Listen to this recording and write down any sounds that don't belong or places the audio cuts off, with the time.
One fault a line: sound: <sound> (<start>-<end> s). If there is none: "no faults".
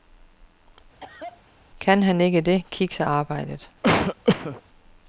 sound: cough (1.0-1.4 s)
sound: cough (3.8-4.6 s)